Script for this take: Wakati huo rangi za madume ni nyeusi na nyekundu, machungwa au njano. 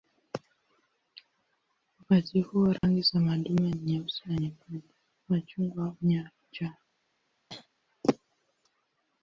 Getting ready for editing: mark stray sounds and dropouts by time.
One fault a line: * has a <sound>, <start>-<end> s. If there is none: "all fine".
* has a dropout, 2.8-2.8 s
* has a throat clearing, 7.5-7.7 s